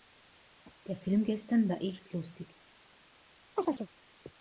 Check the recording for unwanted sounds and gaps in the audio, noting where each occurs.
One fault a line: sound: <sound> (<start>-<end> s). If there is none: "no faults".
sound: chirp (3.6-3.9 s)